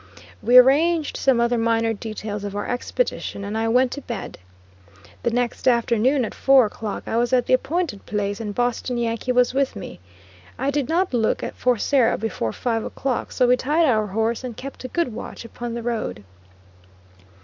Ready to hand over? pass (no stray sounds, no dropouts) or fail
pass